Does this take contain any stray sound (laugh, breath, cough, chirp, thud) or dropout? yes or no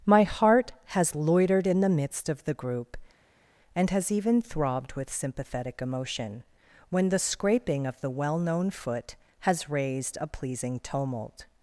no